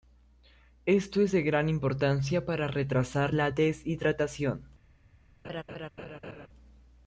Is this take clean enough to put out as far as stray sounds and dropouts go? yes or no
no